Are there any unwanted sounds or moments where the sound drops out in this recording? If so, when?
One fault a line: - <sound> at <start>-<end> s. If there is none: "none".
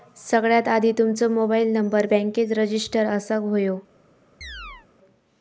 - chirp at 4.4-4.9 s